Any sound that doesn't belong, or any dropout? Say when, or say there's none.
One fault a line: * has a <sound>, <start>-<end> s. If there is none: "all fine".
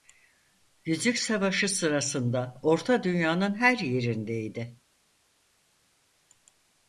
all fine